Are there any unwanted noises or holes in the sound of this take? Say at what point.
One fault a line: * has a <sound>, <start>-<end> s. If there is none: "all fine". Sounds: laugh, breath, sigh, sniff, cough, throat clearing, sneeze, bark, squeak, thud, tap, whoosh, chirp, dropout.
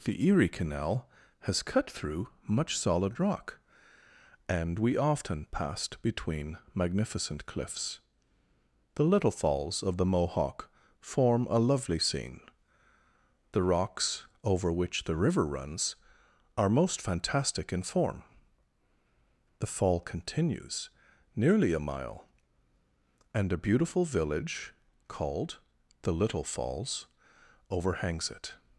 all fine